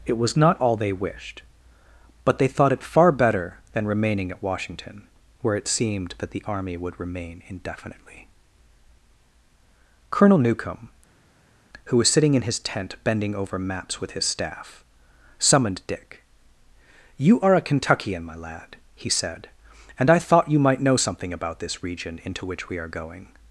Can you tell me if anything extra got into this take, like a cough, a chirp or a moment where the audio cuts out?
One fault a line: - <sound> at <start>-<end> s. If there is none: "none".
none